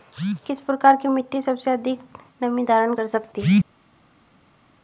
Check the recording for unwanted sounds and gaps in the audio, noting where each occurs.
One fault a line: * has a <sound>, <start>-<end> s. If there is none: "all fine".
all fine